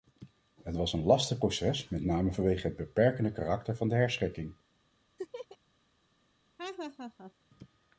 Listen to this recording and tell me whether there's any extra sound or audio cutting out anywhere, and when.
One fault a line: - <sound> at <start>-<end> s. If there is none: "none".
- laugh at 5.2-5.6 s
- laugh at 6.6-7.3 s